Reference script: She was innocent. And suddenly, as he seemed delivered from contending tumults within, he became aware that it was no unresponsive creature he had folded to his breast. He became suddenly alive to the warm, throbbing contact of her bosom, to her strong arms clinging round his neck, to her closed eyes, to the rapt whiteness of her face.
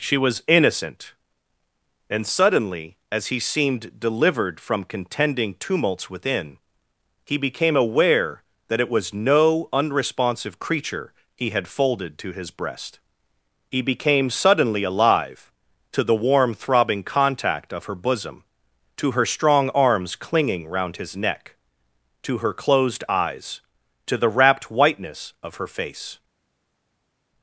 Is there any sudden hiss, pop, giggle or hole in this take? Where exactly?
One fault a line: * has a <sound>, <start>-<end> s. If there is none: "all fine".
all fine